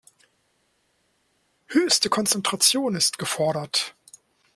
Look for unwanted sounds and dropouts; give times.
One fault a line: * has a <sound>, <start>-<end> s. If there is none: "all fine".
all fine